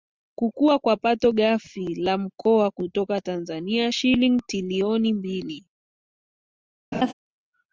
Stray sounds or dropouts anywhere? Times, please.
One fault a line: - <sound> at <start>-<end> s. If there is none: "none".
- laugh at 6.9-7.1 s